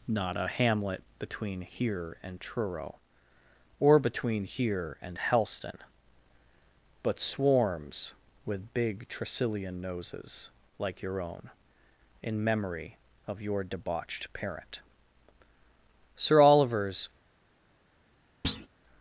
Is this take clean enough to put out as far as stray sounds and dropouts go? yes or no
no